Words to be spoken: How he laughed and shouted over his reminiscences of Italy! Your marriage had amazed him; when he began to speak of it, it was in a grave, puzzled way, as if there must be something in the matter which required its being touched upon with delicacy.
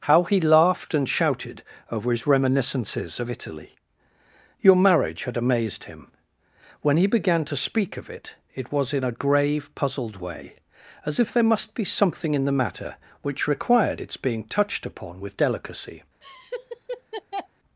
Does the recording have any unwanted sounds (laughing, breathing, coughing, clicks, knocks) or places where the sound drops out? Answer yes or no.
yes